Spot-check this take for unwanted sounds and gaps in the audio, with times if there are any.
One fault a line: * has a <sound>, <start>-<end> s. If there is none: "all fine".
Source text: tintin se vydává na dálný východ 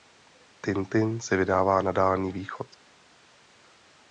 all fine